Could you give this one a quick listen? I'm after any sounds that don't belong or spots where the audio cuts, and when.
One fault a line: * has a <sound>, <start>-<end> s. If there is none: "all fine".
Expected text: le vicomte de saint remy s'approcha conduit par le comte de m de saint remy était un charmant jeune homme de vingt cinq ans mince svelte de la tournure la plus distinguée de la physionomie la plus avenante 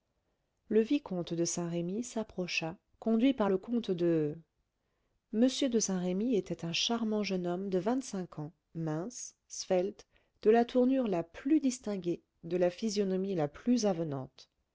all fine